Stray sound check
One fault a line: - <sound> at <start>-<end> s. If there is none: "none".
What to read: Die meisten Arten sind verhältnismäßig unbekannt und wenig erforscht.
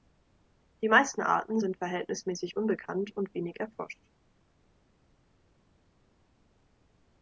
none